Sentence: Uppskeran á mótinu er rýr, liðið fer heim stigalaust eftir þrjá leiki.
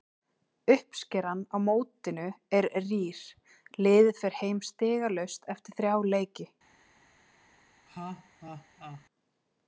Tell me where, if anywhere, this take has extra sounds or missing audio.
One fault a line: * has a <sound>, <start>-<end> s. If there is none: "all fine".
* has a laugh, 7.9-9.0 s